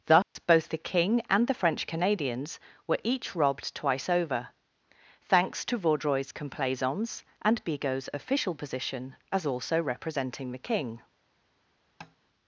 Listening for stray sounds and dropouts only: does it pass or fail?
fail